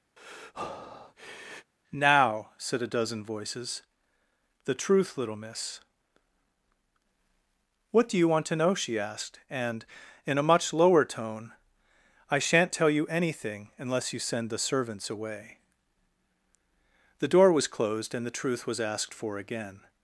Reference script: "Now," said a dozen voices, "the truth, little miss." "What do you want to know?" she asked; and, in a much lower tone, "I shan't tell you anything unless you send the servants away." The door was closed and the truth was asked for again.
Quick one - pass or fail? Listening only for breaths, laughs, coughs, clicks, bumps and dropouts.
fail